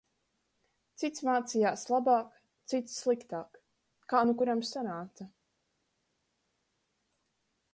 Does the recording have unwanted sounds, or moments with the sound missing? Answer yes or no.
no